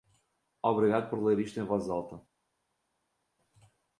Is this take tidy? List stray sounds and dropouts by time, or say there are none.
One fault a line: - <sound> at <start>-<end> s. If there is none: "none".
none